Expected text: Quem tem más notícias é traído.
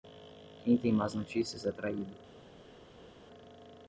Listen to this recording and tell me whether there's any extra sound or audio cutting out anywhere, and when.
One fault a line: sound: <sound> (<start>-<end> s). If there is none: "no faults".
no faults